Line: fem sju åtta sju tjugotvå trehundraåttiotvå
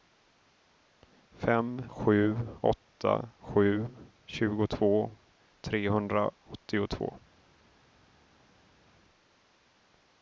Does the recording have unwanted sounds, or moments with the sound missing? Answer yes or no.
no